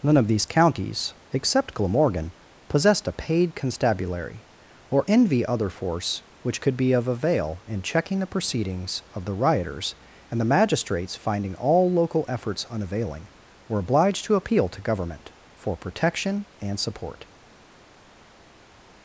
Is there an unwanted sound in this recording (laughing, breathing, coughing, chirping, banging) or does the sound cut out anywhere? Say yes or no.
no